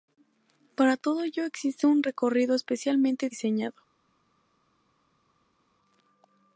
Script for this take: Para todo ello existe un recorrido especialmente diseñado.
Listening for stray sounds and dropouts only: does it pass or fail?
pass